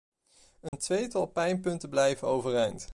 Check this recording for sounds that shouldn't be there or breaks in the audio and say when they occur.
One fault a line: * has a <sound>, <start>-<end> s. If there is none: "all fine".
* has a dropout, 0.7-0.7 s